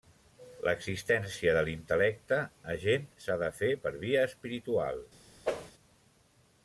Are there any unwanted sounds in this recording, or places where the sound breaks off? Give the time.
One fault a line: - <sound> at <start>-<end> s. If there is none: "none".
- whoosh at 5.4-5.7 s